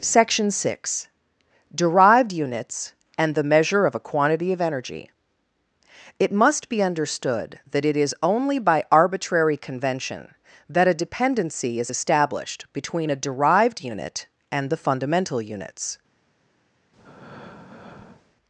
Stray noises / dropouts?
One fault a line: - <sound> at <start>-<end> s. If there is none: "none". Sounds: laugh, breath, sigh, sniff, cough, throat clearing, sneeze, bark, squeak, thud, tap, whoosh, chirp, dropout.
- breath at 16.9-18.4 s